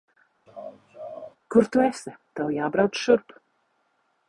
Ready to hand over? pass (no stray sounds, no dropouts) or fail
fail